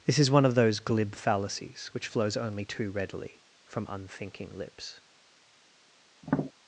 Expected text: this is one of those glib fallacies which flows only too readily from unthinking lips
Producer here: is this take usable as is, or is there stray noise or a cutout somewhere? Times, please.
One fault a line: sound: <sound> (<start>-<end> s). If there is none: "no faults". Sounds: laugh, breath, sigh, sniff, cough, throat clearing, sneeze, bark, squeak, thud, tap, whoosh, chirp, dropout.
sound: tap (6.2-6.5 s)